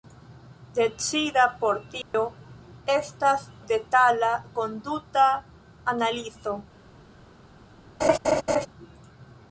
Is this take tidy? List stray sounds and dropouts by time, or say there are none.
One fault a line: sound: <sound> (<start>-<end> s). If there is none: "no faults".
sound: dropout (2.0-2.1 s)
sound: laugh (8.0-8.7 s)